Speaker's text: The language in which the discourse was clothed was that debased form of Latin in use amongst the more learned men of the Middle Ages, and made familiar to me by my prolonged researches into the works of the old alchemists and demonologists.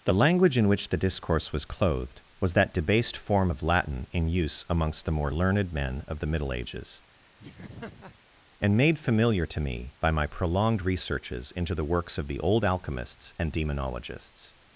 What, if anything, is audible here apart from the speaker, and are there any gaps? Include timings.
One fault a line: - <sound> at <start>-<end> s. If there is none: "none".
- laugh at 7.4-8.2 s